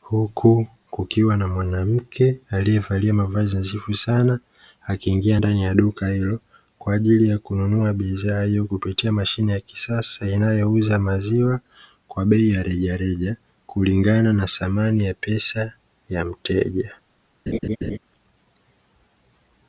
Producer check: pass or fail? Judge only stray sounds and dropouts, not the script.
fail